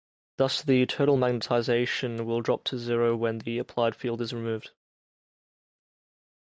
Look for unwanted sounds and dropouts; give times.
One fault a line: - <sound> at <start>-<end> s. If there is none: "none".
none